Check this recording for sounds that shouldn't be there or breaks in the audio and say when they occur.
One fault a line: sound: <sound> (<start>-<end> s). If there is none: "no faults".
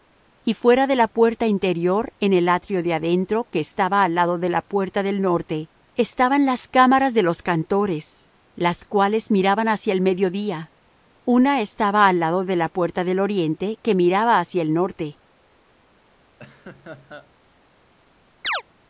sound: laugh (16.4-17.3 s)
sound: chirp (18.4-18.6 s)